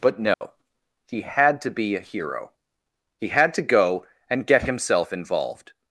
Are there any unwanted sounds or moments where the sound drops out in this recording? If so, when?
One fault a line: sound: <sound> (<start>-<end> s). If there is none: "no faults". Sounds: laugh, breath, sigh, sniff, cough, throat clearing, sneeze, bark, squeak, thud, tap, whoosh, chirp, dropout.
sound: dropout (0.3-0.4 s)